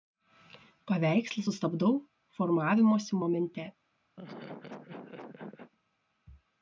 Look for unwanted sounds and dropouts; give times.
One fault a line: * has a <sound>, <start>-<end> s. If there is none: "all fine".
* has a laugh, 4.2-5.7 s